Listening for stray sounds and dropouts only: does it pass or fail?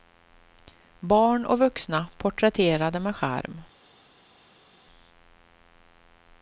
pass